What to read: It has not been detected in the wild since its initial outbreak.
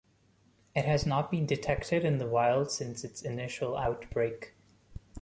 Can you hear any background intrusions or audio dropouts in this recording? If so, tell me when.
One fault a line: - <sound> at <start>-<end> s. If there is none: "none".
none